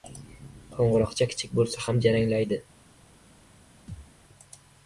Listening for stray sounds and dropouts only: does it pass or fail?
fail